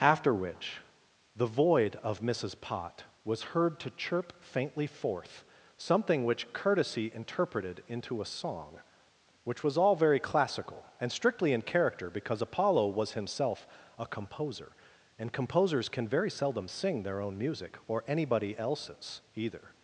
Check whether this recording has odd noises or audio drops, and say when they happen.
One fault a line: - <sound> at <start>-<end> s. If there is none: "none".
none